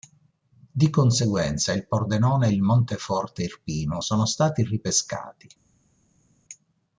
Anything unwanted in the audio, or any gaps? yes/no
no